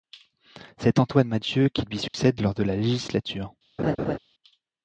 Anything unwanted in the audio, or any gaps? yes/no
yes